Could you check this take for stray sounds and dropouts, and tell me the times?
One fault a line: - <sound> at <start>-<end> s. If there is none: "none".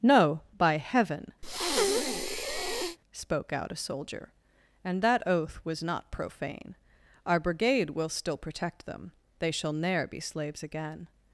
- breath at 1.4-3.0 s